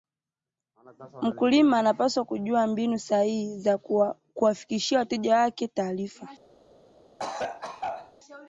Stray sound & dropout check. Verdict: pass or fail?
fail